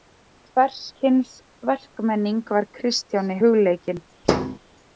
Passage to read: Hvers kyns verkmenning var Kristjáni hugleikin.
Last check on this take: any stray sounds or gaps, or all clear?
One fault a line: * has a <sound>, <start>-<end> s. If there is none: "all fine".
* has a thud, 4.2-4.6 s